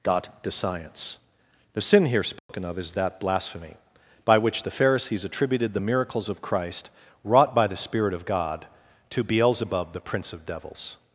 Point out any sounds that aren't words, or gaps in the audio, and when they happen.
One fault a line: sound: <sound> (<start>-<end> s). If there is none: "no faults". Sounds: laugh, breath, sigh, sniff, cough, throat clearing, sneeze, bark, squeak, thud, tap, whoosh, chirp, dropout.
sound: dropout (2.4-2.5 s)